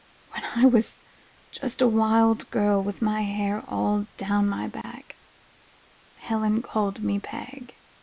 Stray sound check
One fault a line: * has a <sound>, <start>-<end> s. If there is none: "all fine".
* has a dropout, 4.8-4.8 s